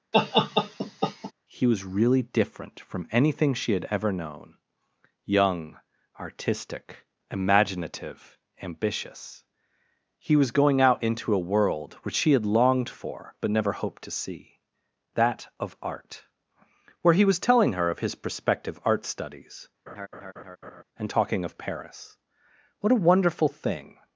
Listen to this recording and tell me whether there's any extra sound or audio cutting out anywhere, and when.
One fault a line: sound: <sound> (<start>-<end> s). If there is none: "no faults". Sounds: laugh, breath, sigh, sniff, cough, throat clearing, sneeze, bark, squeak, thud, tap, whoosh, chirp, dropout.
sound: laugh (0.1-1.3 s)
sound: laugh (19.9-20.8 s)